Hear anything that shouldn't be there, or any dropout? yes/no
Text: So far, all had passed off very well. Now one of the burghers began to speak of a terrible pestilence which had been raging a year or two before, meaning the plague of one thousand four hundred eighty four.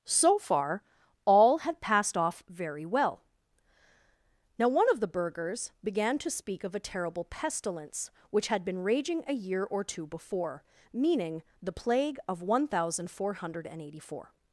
no